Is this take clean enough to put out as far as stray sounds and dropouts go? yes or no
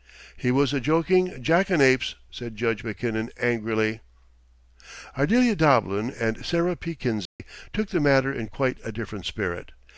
no